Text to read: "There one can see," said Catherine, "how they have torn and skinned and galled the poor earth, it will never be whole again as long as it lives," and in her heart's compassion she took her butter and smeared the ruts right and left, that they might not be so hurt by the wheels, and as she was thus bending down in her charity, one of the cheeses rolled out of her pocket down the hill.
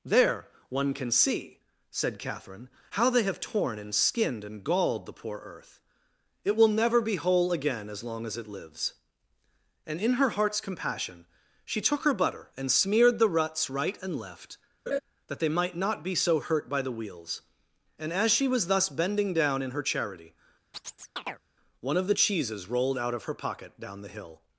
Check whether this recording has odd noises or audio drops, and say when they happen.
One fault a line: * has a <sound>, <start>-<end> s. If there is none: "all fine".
* has a laugh, 14.9-15.0 s
* has a chirp, 20.7-21.4 s